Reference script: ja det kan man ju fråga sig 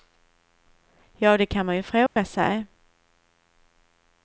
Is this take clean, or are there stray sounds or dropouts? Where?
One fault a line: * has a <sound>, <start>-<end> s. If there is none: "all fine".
* has a dropout, 2.1-2.2 s